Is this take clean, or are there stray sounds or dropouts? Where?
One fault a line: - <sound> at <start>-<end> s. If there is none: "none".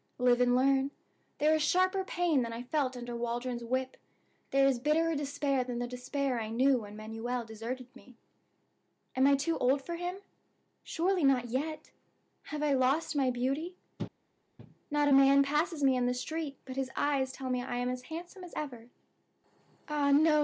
none